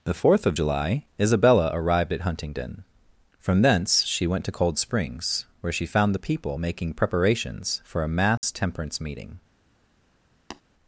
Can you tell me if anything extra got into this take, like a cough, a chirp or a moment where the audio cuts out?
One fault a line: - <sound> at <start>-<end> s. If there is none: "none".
- dropout at 8.4-8.4 s
- tap at 10.5-10.6 s